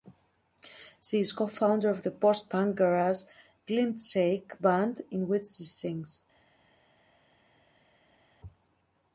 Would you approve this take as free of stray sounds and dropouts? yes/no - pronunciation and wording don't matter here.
yes